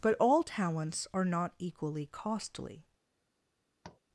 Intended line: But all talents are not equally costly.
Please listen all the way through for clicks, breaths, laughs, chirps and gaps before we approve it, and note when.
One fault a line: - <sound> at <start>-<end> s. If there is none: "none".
- tap at 3.8-4.0 s